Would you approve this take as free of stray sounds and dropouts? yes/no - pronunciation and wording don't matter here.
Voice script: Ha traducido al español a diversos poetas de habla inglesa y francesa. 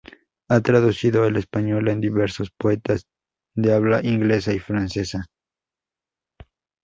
yes